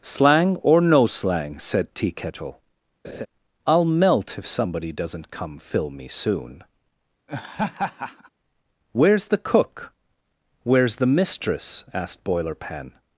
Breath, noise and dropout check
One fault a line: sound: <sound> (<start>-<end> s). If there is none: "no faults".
sound: laugh (3.0-3.3 s)
sound: laugh (7.3-8.3 s)